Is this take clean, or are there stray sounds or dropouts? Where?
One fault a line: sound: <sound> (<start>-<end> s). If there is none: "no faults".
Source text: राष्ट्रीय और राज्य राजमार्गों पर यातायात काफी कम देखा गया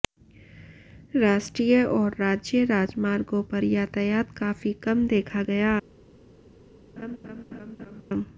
sound: laugh (7.0-8.0 s)